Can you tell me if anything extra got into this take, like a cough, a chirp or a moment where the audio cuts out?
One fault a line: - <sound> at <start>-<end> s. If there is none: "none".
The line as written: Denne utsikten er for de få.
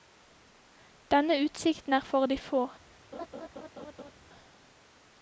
- laugh at 3.1-4.1 s